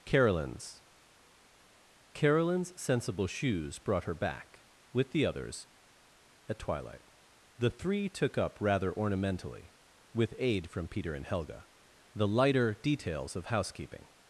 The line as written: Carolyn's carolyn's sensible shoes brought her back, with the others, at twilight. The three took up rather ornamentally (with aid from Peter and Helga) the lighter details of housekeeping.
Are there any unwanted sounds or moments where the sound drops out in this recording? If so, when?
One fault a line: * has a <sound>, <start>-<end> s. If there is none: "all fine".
all fine